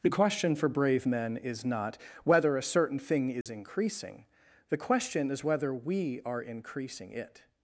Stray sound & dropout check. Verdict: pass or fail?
fail